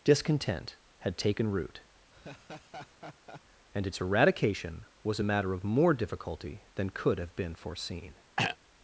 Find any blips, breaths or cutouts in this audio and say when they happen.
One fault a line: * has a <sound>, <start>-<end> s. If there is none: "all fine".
* has a laugh, 2.1-3.4 s
* has a throat clearing, 8.4-8.6 s